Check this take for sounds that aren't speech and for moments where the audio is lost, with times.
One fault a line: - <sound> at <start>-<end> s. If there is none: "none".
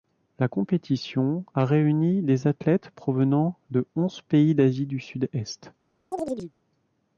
- chirp at 6.1-6.5 s